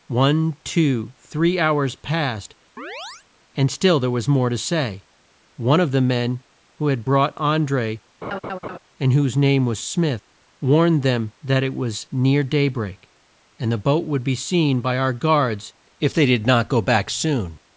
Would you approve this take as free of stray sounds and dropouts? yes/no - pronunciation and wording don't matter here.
no